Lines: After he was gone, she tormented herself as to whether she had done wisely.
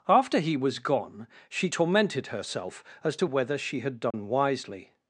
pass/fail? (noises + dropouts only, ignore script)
fail